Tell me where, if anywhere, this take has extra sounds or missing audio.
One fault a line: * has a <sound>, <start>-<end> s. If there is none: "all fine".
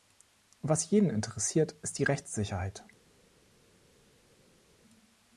all fine